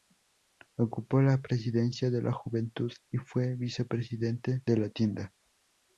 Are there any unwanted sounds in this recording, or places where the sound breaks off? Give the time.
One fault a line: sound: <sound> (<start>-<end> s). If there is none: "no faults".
no faults